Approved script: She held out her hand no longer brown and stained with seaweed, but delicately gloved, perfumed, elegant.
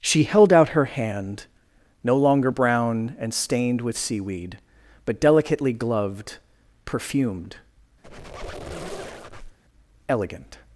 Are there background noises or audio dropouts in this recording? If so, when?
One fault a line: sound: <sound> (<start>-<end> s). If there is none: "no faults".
sound: squeak (8.0-9.6 s)